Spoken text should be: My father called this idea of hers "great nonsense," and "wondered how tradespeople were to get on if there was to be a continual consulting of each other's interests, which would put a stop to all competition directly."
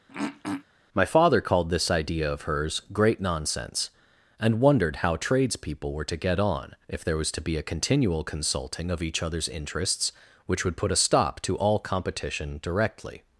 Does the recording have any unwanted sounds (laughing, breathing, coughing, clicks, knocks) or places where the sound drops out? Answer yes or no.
yes